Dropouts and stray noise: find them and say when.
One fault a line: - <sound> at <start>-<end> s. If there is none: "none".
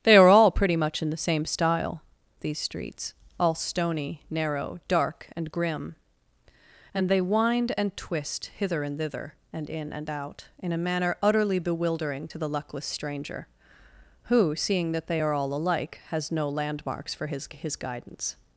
none